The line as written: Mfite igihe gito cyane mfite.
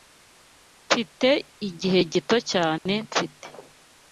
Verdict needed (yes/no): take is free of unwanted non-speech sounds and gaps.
no